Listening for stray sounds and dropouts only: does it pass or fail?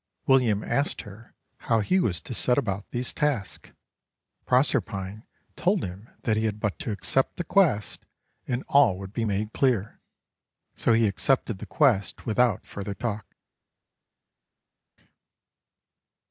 pass